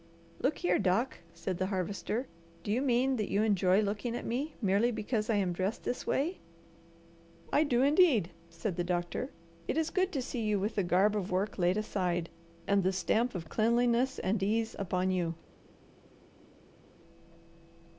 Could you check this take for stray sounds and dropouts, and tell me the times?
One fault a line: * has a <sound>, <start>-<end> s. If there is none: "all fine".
all fine